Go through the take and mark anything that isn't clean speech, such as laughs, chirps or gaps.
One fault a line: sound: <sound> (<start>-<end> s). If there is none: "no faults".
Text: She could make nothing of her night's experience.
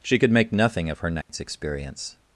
sound: dropout (1.2-1.3 s)